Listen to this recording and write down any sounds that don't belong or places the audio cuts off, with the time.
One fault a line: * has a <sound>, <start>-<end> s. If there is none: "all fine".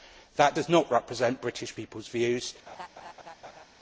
* has a laugh, 2.7-3.7 s